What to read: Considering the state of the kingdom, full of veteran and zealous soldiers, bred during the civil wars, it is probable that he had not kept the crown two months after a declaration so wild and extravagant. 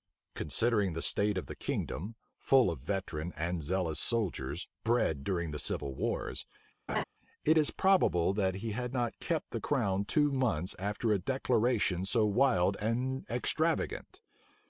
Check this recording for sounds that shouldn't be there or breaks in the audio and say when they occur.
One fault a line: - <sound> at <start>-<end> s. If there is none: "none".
- laugh at 6.9-7.0 s